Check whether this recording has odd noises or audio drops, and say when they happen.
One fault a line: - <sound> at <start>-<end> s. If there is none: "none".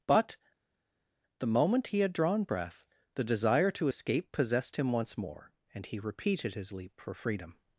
none